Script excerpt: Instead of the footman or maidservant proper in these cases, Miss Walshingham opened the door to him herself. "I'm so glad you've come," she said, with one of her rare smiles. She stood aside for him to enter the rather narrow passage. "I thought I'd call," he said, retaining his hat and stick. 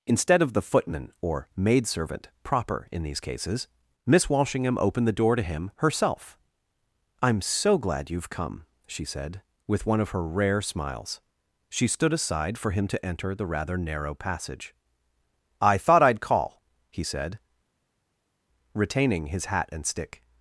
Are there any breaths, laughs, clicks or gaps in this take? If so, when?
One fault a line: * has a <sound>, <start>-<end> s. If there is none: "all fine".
all fine